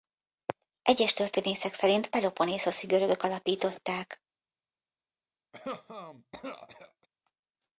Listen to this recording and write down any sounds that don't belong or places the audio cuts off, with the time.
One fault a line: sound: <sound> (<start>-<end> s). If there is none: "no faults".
sound: cough (5.5-7.1 s)